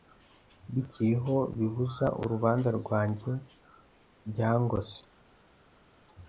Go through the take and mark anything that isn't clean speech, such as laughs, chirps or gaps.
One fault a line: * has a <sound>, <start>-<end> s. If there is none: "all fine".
all fine